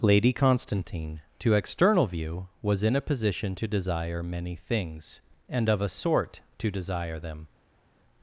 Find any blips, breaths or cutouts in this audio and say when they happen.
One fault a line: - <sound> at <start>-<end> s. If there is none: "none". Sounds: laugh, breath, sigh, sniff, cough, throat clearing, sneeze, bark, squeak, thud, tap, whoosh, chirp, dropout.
none